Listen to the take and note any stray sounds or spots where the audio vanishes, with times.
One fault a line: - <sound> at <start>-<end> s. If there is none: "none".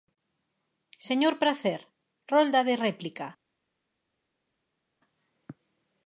none